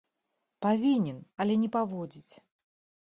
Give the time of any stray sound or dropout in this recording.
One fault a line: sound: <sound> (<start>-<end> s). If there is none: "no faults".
no faults